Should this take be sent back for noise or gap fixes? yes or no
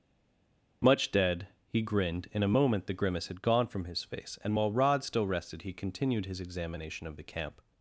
no